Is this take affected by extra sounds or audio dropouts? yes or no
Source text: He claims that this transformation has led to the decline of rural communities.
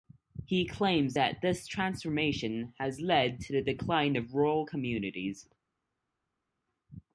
no